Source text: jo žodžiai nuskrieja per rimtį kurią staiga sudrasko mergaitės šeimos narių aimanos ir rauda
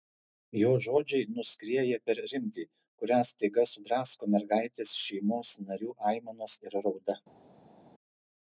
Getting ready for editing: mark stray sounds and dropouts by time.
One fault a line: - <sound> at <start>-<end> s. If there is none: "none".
none